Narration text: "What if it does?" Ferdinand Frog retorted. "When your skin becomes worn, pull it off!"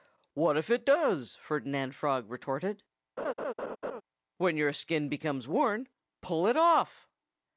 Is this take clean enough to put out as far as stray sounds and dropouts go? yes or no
no